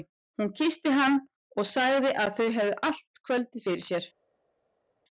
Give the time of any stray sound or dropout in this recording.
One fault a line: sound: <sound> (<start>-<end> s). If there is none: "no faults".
no faults